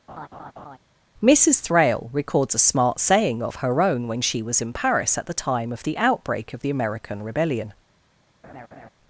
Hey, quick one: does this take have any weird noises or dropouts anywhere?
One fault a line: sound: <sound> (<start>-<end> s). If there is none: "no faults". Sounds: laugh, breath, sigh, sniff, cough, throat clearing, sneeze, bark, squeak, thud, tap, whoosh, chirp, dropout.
sound: laugh (0.1-0.8 s)
sound: laugh (8.4-8.9 s)